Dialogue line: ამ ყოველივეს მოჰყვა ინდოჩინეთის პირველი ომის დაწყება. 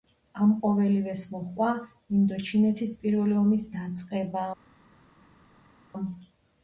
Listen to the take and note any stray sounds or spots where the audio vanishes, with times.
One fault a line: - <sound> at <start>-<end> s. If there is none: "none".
none